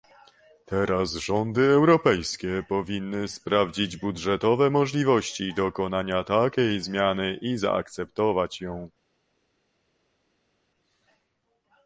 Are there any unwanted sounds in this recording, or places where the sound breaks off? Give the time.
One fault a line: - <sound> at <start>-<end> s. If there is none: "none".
none